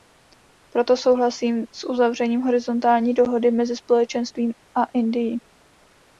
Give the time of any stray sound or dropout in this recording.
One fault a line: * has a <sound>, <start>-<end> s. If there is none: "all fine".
all fine